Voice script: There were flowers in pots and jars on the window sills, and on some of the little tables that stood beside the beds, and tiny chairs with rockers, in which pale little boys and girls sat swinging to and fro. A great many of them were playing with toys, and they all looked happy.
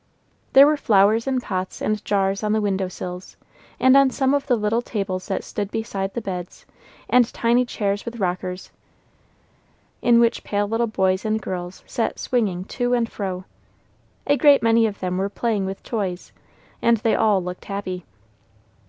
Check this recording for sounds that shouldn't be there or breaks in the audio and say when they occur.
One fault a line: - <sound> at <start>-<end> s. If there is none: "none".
none